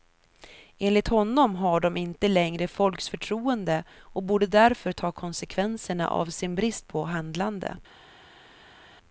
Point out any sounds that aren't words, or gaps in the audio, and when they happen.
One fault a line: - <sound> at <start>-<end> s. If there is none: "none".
none